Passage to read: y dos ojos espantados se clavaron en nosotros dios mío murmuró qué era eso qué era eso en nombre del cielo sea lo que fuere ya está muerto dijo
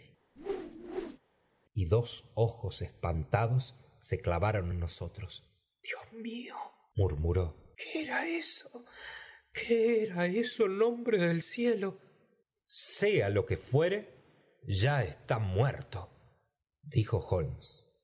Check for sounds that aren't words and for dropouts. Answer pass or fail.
fail